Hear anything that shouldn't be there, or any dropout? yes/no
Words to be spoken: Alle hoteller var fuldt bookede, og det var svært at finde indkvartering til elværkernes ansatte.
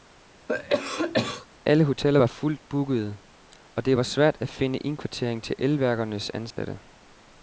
yes